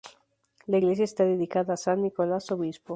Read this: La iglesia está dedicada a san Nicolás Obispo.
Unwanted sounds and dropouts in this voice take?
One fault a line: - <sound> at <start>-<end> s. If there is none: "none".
none